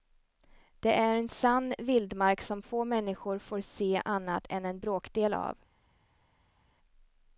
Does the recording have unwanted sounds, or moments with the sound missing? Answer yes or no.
no